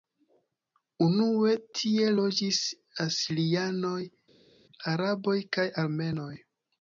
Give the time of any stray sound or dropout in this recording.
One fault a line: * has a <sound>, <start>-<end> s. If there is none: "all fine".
all fine